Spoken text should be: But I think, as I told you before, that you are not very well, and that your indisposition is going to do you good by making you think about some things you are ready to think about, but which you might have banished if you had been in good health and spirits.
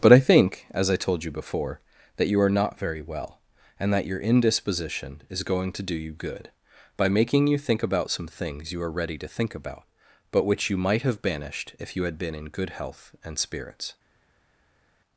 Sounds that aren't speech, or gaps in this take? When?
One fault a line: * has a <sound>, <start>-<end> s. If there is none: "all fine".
all fine